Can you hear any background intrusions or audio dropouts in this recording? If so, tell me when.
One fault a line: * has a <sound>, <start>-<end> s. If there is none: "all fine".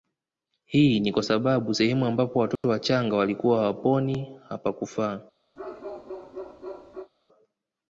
* has a dropout, 2.6-2.6 s
* has a bark, 5.6-7.1 s